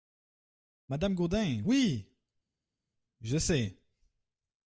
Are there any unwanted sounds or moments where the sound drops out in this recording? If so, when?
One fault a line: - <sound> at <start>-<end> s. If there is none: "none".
none